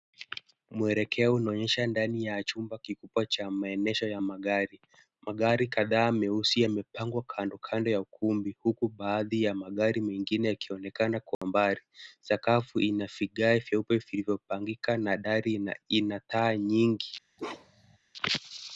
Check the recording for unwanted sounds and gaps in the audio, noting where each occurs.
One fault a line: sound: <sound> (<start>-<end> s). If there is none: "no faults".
sound: dropout (11.3-11.4 s)
sound: bark (17.4-18.0 s)